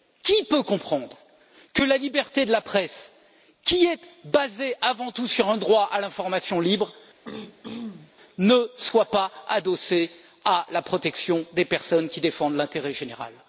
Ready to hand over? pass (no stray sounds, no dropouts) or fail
fail